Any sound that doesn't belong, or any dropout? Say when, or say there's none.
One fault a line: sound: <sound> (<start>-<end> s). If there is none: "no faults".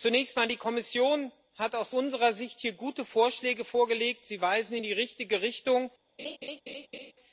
sound: laugh (6.2-7.1 s)